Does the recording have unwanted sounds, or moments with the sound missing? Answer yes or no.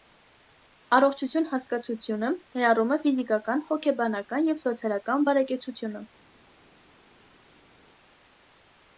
no